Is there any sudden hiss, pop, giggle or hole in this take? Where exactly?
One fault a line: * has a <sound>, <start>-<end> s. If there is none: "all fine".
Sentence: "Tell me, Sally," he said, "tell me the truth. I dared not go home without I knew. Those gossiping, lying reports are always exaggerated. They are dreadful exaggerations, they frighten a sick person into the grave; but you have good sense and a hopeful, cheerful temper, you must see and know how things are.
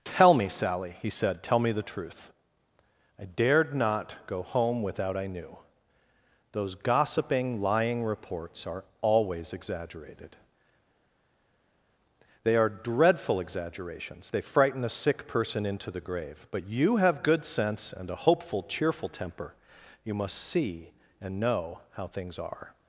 all fine